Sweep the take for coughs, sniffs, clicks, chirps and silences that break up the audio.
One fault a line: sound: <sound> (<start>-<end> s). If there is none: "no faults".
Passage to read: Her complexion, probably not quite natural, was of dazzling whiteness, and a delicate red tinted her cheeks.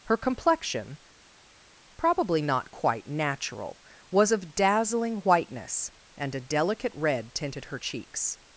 no faults